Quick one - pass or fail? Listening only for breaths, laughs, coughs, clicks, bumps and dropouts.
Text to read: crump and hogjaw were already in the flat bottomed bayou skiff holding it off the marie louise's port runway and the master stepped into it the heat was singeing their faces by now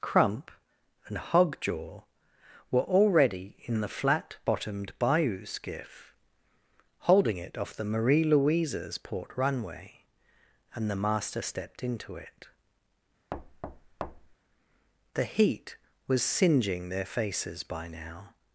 fail